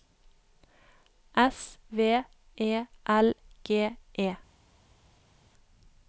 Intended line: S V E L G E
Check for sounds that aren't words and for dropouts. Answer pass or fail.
pass